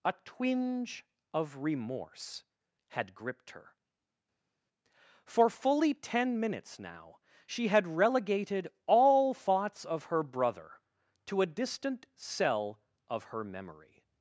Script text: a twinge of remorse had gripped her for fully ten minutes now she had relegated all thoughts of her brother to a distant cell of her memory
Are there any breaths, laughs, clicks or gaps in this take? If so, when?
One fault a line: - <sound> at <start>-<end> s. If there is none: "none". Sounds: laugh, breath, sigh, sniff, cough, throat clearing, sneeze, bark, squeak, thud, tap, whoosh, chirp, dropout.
none